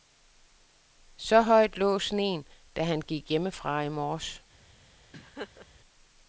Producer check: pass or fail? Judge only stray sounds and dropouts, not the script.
fail